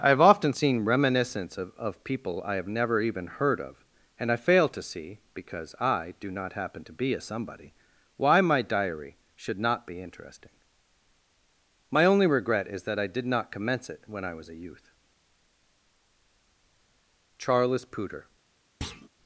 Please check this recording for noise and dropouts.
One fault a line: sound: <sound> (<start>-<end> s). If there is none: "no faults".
sound: thud (18.8-19.1 s)